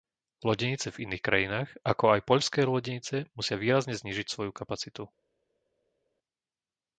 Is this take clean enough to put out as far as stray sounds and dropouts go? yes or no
yes